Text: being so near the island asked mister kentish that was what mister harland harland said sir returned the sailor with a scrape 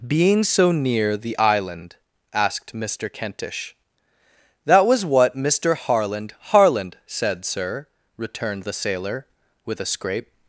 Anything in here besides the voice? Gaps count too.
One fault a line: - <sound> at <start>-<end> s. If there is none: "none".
none